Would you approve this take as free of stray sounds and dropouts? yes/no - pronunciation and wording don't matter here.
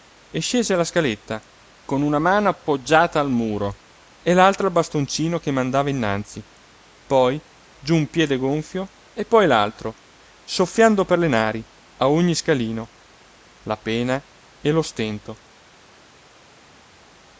yes